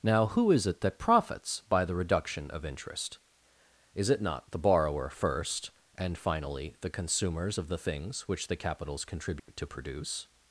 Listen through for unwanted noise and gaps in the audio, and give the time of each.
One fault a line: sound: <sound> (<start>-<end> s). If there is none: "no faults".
sound: dropout (9.4-9.5 s)